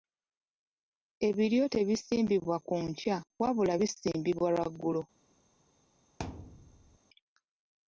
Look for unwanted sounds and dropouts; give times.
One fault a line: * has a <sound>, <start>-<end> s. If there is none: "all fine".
* has a thud, 6.2-7.0 s